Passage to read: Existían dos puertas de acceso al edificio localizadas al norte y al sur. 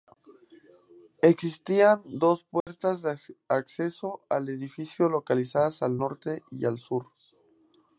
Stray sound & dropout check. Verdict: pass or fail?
fail